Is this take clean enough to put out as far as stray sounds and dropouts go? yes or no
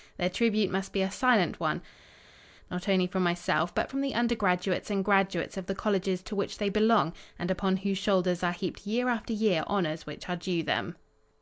yes